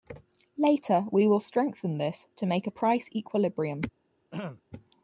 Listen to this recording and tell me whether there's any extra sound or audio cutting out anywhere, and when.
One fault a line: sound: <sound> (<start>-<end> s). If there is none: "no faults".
sound: throat clearing (4.3-4.6 s)